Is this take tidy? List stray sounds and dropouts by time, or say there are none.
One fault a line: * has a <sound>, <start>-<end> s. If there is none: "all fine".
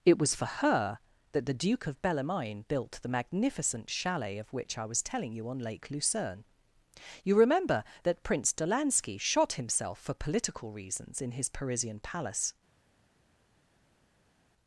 all fine